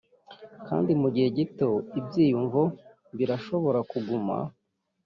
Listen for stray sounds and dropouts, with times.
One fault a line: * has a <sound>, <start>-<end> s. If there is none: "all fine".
all fine